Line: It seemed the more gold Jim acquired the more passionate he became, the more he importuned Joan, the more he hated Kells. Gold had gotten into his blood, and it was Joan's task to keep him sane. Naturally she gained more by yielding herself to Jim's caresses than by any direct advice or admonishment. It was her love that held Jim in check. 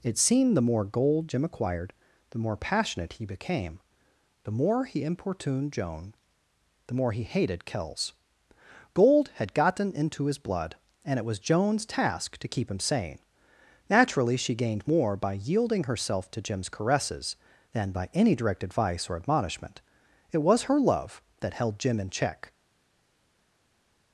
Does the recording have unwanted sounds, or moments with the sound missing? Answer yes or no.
no